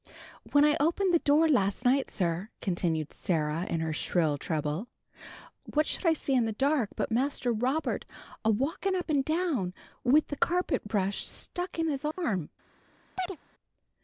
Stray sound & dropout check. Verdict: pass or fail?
fail